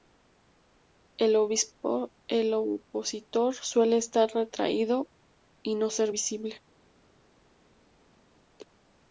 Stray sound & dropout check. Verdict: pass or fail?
pass